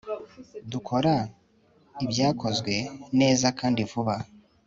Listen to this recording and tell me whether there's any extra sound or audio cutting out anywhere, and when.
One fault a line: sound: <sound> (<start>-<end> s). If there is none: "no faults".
no faults